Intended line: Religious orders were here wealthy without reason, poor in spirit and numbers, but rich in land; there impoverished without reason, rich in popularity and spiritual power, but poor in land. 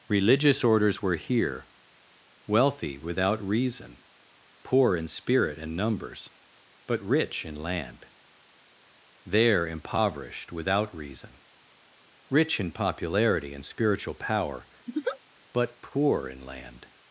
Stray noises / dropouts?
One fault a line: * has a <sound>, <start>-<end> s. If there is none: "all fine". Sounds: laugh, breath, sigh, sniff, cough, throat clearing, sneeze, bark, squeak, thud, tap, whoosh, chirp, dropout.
* has a laugh, 14.9-15.2 s